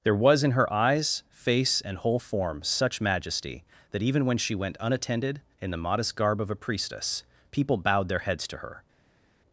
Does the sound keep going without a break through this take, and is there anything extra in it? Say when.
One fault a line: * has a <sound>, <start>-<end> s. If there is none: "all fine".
all fine